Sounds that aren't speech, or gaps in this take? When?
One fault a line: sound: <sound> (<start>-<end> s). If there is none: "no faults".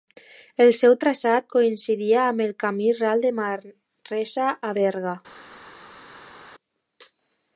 no faults